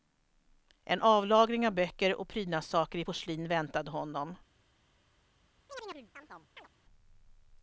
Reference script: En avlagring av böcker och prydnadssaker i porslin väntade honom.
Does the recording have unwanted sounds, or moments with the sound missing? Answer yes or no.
yes